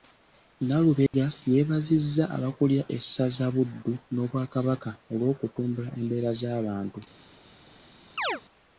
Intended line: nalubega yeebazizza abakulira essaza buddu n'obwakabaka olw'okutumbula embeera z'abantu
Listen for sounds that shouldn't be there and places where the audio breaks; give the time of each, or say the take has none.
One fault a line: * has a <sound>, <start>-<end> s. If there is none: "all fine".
* has a dropout, 1.1-1.1 s
* has a chirp, 8.2-8.4 s